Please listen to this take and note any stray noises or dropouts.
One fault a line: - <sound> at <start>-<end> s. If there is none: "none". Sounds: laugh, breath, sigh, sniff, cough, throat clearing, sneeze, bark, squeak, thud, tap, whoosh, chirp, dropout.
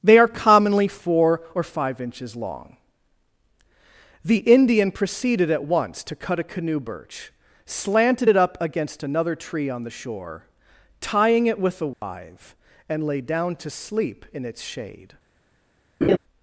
- dropout at 11.9-12.0 s
- laugh at 16.0-16.2 s